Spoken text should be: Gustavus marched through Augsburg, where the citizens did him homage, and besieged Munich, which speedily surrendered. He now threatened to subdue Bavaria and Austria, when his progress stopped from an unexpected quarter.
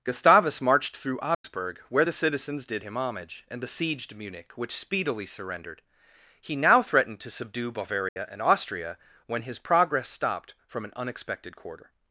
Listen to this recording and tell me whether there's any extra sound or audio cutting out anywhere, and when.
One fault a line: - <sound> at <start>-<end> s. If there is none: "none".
- dropout at 1.3-1.4 s
- dropout at 8.1-8.2 s